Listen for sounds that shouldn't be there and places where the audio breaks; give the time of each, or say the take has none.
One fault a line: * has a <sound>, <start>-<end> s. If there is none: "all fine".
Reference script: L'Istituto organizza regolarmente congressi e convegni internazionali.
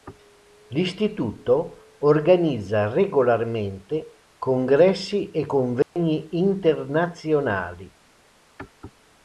* has a dropout, 5.8-6.0 s